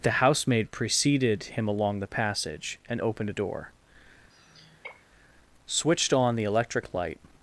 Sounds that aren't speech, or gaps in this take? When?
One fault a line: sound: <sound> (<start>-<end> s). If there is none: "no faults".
sound: sigh (4.3-5.1 s)